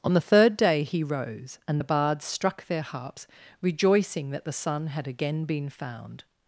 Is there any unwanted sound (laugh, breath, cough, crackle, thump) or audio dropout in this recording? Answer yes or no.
no